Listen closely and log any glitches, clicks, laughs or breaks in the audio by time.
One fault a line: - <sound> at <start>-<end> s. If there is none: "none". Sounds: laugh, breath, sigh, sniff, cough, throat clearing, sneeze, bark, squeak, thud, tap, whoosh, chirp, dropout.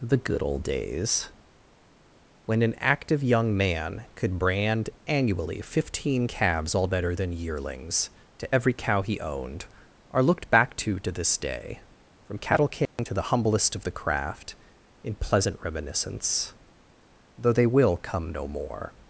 - dropout at 12.9-13.0 s